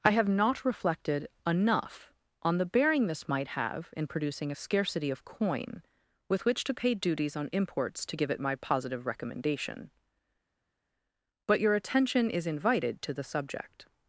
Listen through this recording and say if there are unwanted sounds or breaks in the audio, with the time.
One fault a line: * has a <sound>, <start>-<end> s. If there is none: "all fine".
all fine